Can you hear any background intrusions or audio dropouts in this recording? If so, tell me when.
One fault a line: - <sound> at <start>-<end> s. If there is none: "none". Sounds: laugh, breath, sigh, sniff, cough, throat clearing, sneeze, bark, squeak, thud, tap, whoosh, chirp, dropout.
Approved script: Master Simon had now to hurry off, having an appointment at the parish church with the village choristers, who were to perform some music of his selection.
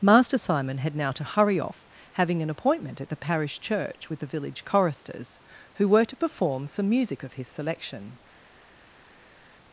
none